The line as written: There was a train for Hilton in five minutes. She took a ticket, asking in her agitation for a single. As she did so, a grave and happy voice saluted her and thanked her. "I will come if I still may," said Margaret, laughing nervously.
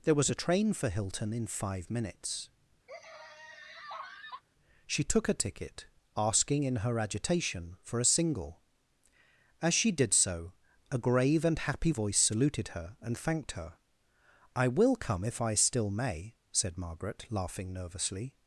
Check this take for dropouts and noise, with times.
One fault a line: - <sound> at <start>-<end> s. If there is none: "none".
- laugh at 2.9-4.4 s